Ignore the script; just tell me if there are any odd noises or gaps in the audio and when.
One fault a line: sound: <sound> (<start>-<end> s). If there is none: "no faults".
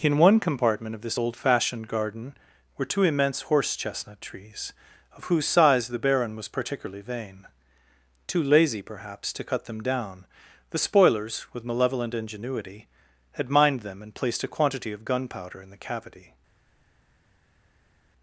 no faults